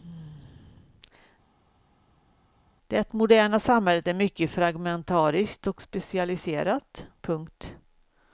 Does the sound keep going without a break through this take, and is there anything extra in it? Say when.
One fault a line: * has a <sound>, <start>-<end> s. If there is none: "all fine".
all fine